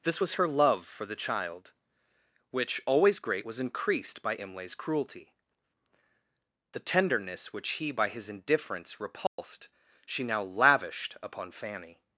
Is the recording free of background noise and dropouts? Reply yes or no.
no